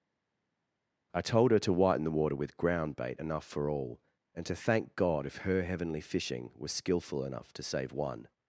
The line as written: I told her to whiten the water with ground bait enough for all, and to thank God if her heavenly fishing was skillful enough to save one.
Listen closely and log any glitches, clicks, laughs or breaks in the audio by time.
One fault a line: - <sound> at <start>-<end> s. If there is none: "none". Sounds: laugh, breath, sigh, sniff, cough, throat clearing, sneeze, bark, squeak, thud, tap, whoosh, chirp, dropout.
none